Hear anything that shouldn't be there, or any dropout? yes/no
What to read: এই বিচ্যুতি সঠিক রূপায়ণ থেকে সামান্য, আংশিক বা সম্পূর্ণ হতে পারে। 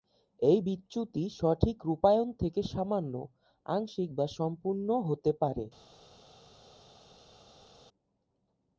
no